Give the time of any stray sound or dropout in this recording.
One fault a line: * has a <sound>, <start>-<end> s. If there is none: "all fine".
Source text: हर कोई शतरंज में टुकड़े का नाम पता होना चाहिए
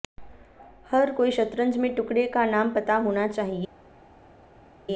all fine